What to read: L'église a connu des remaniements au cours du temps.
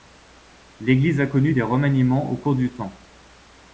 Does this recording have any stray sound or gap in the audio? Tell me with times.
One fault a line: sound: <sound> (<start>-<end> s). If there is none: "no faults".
no faults